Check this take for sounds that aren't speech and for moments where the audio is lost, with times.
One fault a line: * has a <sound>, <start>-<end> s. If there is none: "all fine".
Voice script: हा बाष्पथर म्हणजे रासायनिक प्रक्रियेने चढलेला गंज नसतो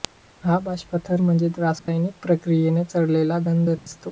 * has a dropout, 1.8-1.9 s
* has a dropout, 3.8-3.9 s